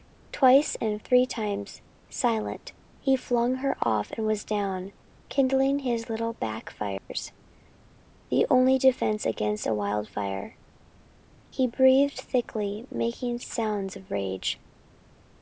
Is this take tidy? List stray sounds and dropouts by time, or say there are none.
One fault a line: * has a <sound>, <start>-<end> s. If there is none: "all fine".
* has a dropout, 7.0-7.1 s